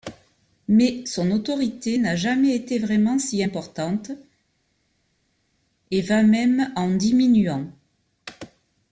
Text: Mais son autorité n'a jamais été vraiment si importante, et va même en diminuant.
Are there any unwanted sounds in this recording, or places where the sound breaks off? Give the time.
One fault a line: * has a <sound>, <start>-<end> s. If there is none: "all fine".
all fine